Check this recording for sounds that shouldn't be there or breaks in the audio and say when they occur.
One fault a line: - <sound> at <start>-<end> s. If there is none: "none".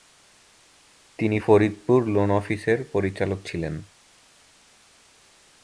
none